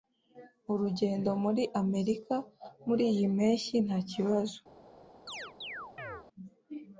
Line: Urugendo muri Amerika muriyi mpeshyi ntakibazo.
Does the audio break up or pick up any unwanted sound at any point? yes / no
yes